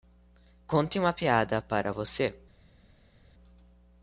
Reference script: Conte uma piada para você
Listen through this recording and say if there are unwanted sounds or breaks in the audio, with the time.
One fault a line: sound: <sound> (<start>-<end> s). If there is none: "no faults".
no faults